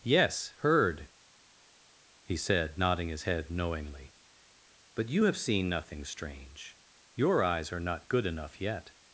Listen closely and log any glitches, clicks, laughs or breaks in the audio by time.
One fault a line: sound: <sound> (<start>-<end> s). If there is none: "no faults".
no faults